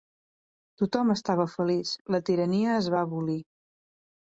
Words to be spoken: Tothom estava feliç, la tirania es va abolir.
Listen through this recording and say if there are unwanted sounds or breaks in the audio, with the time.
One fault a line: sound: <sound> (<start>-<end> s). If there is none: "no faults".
no faults